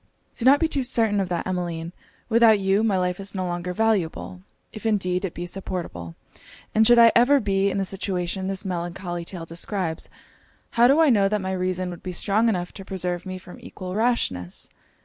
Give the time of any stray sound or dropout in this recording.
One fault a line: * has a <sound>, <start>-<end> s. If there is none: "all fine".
all fine